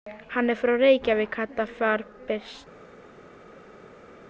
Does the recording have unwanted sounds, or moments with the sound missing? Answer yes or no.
no